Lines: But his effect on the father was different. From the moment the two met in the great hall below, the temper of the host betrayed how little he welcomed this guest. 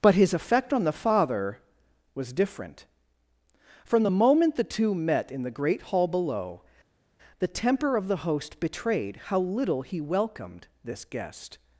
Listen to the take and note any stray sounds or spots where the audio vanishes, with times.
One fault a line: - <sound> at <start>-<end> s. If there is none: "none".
none